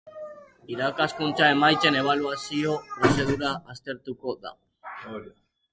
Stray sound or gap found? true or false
false